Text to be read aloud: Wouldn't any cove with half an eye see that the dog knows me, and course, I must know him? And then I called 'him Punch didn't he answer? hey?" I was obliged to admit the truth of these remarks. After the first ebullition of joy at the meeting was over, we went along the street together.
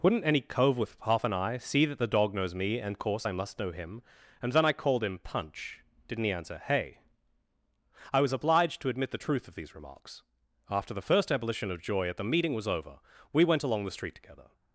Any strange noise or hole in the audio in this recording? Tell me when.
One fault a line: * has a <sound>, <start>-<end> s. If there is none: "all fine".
all fine